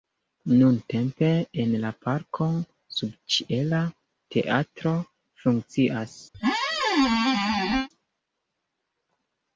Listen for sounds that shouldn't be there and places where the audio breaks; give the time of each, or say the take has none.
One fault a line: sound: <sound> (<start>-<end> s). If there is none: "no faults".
sound: squeak (6.3-7.9 s)